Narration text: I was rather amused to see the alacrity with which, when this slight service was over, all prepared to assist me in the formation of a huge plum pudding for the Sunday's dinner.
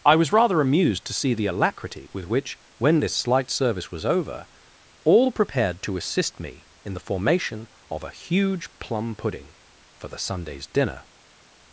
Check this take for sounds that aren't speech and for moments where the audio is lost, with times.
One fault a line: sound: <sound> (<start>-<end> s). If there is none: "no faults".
no faults